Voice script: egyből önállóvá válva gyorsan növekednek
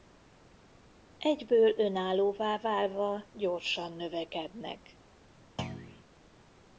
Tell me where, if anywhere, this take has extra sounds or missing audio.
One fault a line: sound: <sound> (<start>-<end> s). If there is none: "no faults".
sound: thud (5.6-6.0 s)